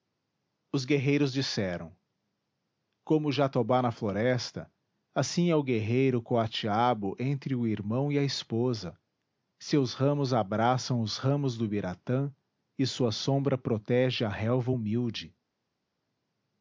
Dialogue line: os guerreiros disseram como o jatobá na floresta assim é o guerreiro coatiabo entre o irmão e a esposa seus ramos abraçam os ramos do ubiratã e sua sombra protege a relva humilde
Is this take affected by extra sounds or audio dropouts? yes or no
no